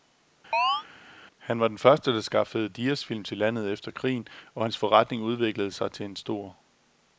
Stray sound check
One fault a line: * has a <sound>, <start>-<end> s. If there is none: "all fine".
* has a chirp, 0.5-0.8 s